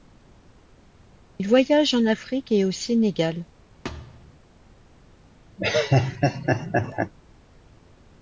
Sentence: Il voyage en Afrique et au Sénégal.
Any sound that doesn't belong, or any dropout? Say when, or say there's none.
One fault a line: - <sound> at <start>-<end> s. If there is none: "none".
- thud at 3.8-4.4 s
- laugh at 5.6-7.1 s